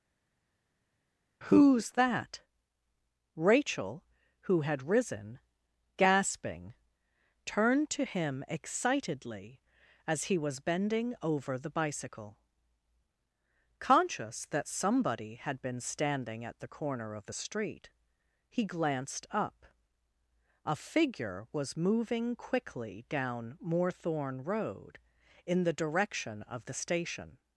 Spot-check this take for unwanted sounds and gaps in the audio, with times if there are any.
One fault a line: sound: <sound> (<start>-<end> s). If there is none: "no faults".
no faults